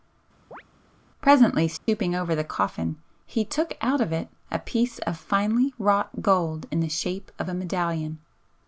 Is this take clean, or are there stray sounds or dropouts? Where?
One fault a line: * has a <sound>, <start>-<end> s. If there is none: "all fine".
* has a chirp, 0.5-0.6 s
* has a dropout, 1.8-1.9 s